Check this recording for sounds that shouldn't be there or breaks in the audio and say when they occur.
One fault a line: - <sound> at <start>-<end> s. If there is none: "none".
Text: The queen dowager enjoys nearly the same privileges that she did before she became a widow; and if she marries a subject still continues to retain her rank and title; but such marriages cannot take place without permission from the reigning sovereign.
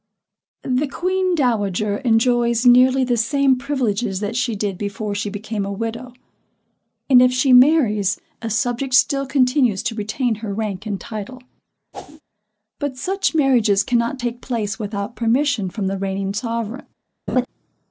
- whoosh at 11.9-12.2 s
- laugh at 17.3-17.5 s